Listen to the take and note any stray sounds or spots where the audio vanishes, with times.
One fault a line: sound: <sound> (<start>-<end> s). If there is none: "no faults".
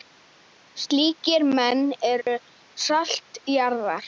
sound: dropout (2.2-2.3 s)